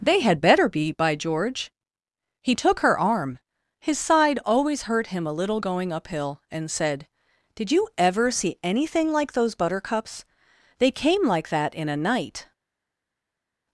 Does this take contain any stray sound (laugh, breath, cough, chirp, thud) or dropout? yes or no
no